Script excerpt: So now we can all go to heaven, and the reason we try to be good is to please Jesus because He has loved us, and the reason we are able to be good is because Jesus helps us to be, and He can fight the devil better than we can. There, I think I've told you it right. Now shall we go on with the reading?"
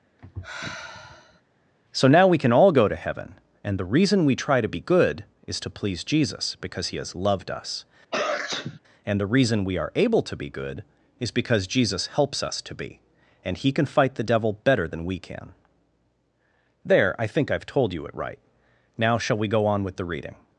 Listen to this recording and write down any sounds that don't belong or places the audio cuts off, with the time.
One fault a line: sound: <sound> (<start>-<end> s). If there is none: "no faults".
sound: sigh (0.2-1.4 s)
sound: sneeze (8.1-8.8 s)